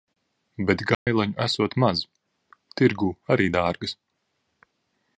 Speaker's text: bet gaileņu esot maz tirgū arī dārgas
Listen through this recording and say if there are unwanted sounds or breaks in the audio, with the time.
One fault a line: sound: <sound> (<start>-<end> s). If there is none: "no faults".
sound: dropout (0.9-1.1 s)